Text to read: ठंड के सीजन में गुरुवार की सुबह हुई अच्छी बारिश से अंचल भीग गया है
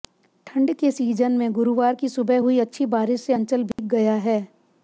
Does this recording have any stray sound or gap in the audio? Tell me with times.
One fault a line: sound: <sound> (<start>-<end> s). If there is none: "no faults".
sound: dropout (3.7-3.8 s)